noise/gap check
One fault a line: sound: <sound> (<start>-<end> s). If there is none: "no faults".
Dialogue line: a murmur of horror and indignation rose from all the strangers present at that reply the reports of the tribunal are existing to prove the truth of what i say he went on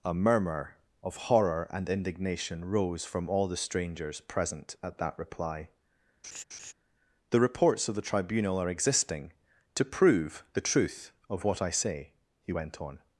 sound: laugh (6.2-6.7 s)